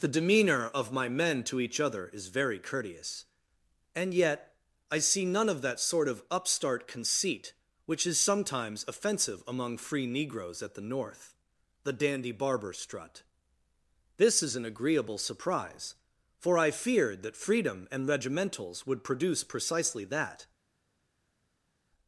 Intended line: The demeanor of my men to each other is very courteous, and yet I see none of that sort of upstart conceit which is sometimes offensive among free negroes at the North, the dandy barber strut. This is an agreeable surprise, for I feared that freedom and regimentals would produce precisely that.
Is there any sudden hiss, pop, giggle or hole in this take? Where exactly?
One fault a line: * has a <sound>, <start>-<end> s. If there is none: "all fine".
all fine